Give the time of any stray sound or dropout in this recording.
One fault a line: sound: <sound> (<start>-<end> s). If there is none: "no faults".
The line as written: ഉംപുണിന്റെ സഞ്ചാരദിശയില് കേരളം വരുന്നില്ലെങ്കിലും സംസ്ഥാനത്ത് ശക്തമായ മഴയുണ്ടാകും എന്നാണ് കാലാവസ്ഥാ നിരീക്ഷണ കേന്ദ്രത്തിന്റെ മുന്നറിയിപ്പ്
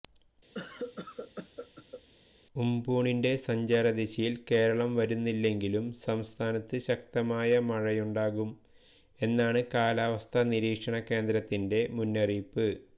sound: cough (0.5-2.0 s)